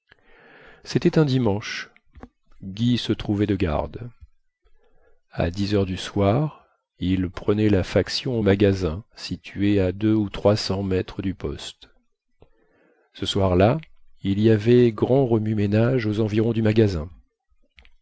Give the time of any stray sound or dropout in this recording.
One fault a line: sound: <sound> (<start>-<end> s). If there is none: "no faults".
no faults